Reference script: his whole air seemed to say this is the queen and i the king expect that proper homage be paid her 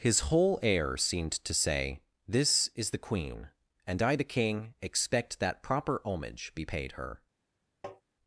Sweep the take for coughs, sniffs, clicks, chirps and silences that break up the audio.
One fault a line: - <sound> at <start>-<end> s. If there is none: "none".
- tap at 7.8-8.0 s